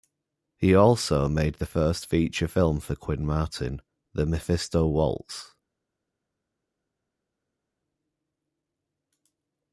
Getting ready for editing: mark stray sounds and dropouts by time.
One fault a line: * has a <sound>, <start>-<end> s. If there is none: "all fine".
all fine